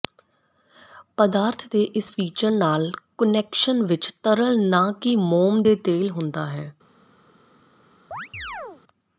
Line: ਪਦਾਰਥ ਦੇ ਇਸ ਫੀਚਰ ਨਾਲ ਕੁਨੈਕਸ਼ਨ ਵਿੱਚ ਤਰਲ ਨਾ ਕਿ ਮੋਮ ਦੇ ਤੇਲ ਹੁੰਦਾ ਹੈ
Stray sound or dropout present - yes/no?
yes